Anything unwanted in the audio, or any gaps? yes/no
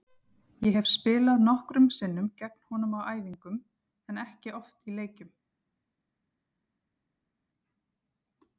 no